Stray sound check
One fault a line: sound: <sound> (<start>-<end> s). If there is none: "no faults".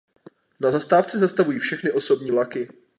no faults